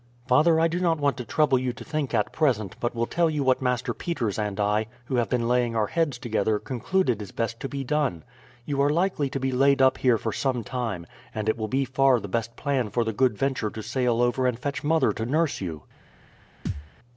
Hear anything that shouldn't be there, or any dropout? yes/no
yes